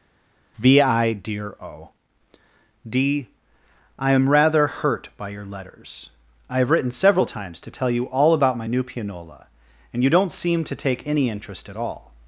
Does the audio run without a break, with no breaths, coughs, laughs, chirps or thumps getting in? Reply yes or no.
yes